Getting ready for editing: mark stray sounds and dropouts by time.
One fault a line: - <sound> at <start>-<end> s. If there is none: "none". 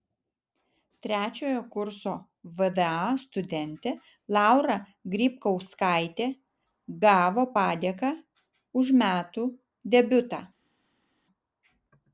none